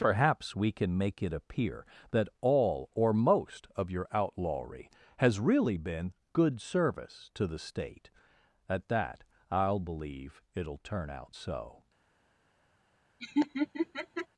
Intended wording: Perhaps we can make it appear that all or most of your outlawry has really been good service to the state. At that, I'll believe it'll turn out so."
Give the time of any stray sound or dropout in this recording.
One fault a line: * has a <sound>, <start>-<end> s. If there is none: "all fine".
* has a laugh, 13.2-14.3 s